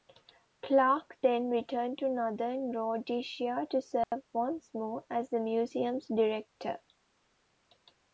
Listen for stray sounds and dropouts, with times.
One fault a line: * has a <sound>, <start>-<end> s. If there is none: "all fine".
* has a dropout, 4.0-4.1 s